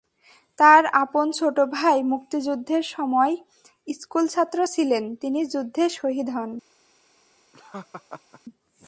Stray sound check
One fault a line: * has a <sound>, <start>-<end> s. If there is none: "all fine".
* has a laugh, 7.5-8.4 s